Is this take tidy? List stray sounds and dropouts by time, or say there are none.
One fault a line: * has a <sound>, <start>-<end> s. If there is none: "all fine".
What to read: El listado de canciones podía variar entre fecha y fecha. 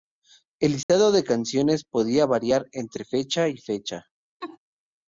* has a dropout, 0.8-0.9 s
* has a laugh, 4.4-4.6 s